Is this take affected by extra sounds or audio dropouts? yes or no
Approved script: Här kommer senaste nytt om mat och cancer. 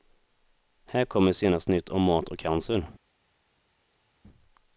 no